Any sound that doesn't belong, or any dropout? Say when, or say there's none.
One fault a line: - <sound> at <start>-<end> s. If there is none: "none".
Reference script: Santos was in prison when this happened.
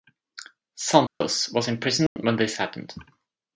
- dropout at 1.1-1.2 s
- dropout at 2.1-2.2 s